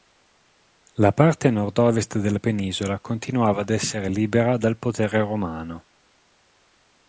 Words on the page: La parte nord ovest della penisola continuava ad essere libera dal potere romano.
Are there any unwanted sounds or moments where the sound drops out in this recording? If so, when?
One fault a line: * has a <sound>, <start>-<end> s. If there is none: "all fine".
all fine